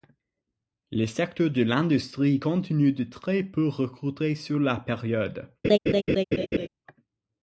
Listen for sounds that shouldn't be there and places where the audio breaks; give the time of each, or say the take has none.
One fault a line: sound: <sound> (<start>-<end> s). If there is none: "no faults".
sound: laugh (5.6-6.7 s)